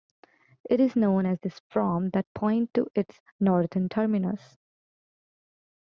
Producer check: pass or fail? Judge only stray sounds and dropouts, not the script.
pass